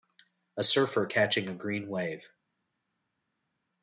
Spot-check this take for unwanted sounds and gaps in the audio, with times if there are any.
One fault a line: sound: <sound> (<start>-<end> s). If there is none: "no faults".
no faults